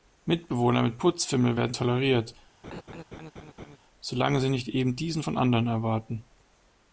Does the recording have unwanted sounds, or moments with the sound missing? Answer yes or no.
yes